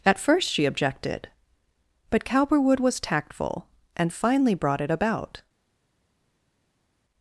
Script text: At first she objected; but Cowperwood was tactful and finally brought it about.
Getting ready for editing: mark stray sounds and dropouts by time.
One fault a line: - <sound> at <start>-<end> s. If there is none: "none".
none